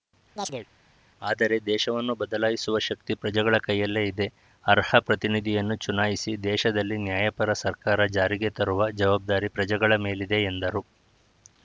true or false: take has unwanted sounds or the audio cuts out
true